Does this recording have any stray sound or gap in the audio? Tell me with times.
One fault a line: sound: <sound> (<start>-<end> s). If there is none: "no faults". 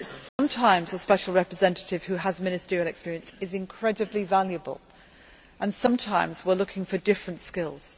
sound: dropout (0.3-0.4 s)